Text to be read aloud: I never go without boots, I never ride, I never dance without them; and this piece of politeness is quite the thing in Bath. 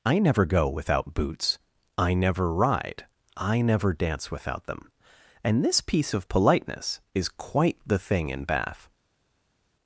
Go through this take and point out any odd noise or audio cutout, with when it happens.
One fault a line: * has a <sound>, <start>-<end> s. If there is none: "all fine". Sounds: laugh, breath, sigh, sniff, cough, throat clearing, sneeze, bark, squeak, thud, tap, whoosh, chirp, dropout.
all fine